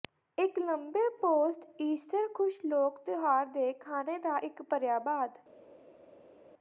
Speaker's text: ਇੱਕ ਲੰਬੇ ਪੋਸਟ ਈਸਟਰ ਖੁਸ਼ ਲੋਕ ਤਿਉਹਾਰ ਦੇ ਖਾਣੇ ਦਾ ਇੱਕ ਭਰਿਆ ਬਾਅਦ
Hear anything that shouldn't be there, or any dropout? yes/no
no